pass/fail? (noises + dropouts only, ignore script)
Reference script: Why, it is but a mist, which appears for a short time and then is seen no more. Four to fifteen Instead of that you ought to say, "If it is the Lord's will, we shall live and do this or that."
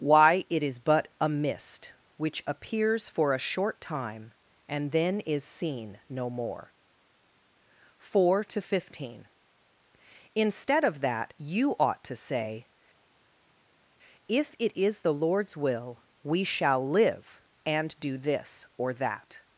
pass